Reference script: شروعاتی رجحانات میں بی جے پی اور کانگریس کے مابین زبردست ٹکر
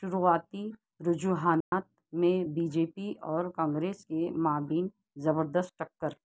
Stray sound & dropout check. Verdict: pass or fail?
fail